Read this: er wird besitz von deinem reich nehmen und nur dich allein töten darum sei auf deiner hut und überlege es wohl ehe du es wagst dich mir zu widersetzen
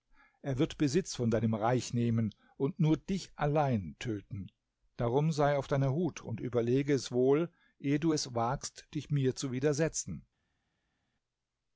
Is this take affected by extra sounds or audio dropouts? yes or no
no